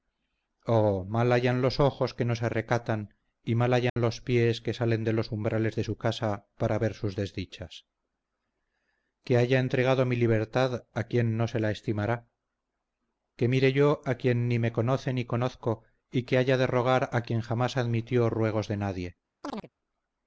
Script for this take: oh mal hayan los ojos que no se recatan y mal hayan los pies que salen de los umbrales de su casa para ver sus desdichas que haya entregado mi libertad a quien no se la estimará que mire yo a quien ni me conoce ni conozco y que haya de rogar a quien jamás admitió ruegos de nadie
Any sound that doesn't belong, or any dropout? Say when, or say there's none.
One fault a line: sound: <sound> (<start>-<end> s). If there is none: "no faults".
sound: dropout (3.9-4.0 s)
sound: chirp (19.4-19.7 s)